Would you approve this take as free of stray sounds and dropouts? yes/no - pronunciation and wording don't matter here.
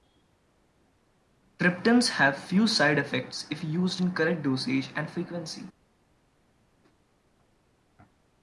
yes